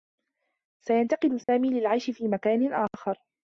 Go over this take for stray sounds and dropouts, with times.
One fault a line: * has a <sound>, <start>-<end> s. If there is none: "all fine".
* has a dropout, 1.4-1.5 s